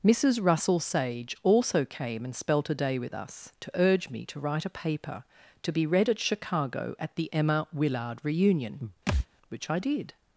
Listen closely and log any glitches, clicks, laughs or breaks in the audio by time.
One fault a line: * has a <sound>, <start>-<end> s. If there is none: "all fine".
* has a thud, 9.1-9.3 s